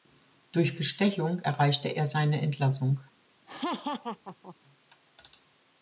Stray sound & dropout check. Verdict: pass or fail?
fail